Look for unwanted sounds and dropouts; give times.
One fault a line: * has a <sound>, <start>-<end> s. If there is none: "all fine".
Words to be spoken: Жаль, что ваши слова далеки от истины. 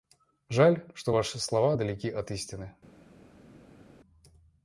all fine